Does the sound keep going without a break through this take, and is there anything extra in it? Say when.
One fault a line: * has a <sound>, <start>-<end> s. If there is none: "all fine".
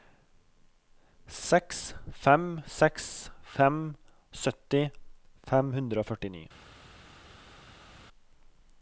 all fine